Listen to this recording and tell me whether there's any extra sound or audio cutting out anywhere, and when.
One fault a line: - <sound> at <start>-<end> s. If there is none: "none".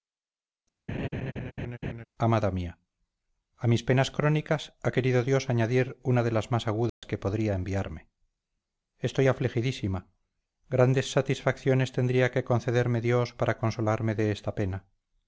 - laugh at 0.9-2.1 s
- dropout at 6.9-7.0 s